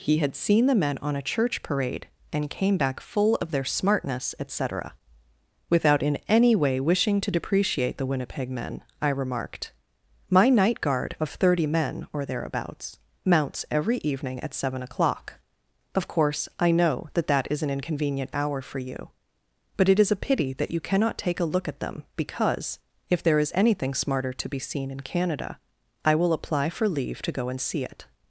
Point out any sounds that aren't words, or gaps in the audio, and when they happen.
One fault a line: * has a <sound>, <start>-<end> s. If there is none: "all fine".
all fine